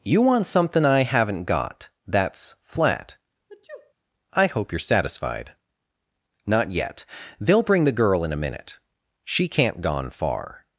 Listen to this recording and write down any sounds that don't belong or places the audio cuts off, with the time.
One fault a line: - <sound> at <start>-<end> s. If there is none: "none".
- sniff at 3.5-3.9 s